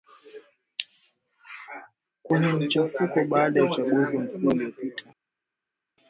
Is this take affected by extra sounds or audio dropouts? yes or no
no